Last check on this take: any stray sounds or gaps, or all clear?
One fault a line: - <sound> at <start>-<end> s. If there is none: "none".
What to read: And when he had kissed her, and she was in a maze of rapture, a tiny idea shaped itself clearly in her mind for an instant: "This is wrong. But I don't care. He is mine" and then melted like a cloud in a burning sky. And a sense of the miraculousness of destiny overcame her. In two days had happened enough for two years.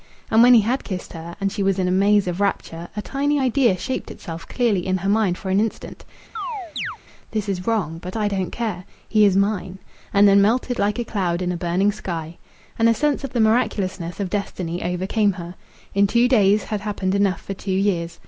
- chirp at 6.4-7.0 s